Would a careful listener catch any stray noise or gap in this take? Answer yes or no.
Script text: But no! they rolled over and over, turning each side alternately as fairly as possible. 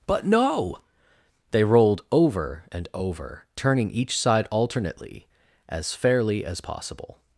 no